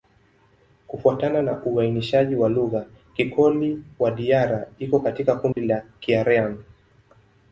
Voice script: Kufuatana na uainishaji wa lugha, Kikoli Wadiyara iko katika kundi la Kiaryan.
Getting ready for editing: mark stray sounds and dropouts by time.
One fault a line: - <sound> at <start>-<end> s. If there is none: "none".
- dropout at 5.5-5.6 s